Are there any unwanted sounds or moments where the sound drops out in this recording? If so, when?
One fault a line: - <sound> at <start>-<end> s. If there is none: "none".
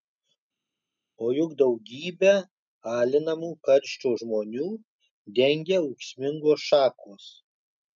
none